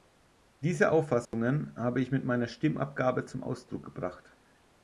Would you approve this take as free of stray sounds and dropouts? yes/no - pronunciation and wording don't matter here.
no